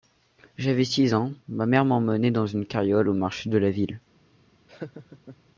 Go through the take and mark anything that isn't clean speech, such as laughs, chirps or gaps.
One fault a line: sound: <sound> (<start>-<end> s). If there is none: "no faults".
sound: laugh (4.7-5.4 s)